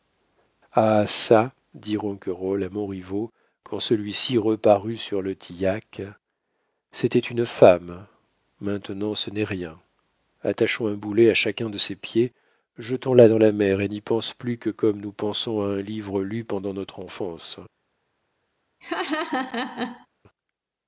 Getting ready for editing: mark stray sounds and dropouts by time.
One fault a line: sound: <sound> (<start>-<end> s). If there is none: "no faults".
sound: laugh (18.8-20.1 s)